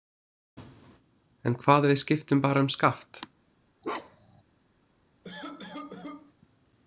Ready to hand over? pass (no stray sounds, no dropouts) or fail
fail